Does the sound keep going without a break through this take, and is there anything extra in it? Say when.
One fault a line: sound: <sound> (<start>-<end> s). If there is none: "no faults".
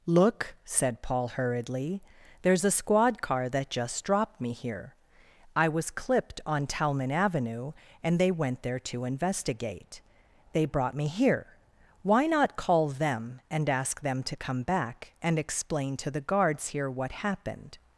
no faults